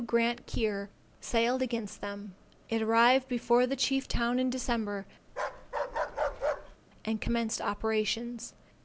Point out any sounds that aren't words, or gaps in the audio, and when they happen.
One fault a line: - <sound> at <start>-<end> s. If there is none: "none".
- bark at 5.3-6.8 s